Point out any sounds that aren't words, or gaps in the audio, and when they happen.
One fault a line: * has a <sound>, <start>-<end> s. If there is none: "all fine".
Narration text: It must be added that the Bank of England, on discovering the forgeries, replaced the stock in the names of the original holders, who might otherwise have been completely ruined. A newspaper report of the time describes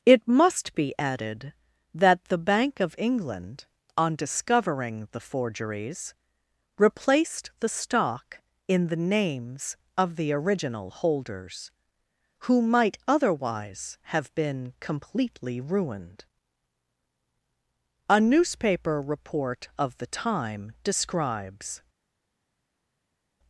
all fine